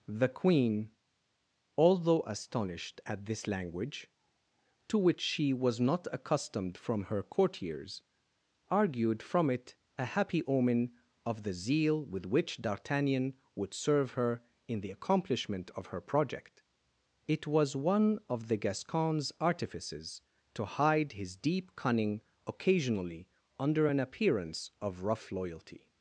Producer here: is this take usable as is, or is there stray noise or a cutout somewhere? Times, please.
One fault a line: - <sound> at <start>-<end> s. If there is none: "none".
none